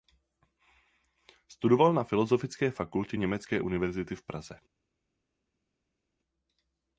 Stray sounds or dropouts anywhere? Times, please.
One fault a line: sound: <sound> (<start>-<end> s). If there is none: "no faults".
no faults